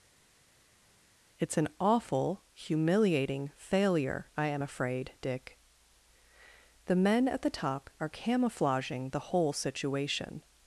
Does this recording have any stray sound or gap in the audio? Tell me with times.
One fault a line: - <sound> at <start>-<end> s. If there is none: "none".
none